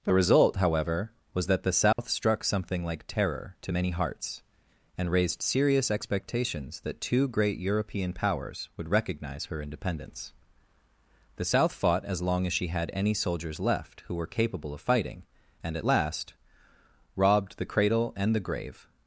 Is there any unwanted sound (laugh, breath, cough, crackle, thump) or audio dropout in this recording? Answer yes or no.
yes